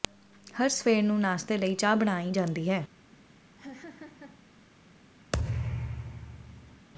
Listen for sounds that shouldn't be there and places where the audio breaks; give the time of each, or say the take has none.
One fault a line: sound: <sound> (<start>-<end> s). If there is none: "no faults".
sound: laugh (3.6-4.4 s)
sound: thud (5.3-6.9 s)